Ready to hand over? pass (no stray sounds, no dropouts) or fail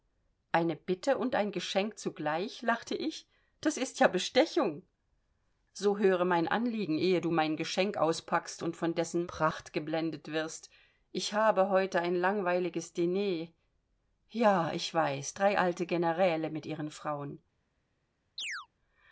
fail